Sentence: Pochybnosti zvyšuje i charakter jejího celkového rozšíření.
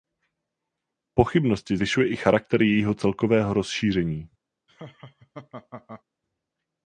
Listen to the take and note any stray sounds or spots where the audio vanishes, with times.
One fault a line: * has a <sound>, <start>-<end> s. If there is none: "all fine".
* has a laugh, 4.7-6.0 s